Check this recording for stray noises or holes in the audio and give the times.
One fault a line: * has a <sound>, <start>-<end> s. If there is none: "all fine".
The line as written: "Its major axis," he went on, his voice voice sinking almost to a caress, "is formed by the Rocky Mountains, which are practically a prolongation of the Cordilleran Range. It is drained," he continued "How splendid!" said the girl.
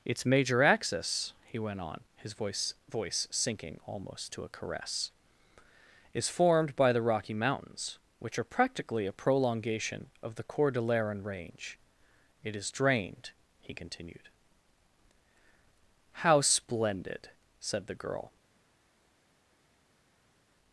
all fine